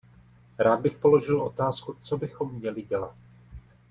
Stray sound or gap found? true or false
false